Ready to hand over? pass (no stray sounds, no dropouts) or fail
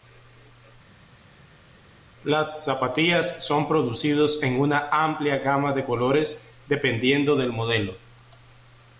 pass